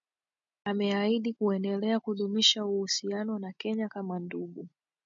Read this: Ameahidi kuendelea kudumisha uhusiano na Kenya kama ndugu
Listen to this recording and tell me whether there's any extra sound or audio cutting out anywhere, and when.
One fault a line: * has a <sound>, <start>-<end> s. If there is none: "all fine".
all fine